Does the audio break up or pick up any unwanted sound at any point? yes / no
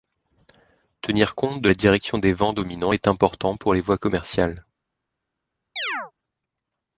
yes